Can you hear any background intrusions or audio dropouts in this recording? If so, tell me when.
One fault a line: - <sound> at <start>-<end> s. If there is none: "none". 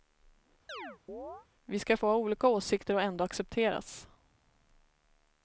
- chirp at 0.7-1.5 s